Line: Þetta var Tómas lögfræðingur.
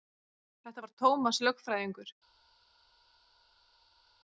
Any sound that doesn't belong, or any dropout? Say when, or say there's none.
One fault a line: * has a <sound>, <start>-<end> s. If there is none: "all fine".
all fine